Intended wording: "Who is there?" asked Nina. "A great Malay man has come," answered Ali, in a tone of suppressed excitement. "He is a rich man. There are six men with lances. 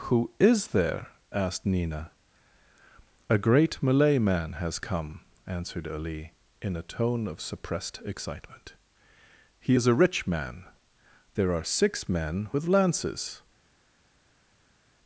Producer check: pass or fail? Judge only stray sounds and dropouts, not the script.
pass